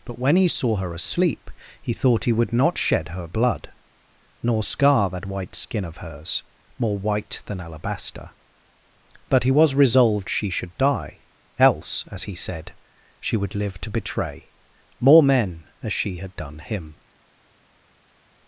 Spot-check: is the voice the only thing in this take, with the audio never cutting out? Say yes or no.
yes